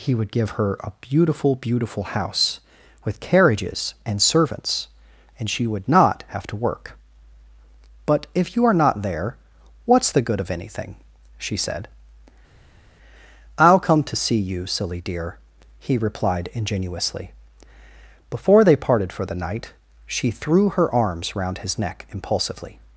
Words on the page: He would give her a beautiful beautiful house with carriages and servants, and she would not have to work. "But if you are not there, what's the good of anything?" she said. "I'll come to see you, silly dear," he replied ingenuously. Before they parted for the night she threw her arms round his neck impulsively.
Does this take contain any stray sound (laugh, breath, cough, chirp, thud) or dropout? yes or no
no